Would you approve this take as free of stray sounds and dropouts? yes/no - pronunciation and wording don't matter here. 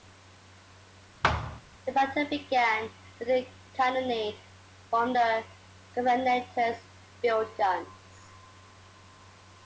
no